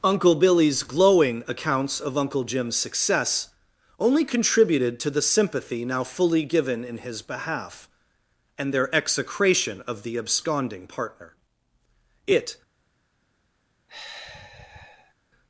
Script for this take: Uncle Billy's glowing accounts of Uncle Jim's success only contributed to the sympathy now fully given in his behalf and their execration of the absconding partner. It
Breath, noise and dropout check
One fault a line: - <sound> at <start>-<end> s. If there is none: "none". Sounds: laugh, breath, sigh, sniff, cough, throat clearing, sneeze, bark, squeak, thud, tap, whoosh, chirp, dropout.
- sigh at 13.9-15.1 s